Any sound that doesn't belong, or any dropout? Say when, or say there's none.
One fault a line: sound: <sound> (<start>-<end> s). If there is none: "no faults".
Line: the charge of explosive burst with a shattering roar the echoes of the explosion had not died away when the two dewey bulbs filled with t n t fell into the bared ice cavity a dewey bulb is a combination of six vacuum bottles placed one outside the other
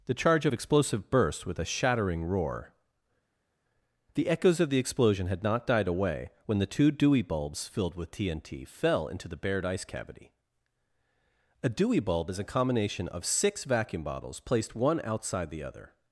no faults